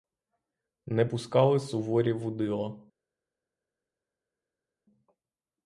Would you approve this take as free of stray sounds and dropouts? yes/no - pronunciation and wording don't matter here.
yes